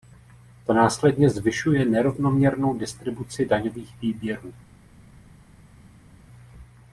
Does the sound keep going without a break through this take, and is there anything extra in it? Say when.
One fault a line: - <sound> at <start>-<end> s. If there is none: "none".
none